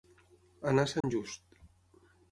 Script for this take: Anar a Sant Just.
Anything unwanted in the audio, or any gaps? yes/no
yes